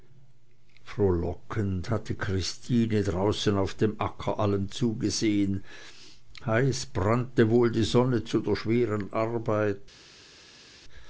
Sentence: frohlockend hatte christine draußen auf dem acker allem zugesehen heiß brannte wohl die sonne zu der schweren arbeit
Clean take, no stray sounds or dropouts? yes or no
yes